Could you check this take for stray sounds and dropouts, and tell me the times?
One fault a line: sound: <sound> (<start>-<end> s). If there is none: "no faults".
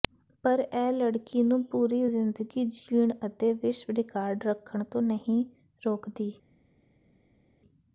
no faults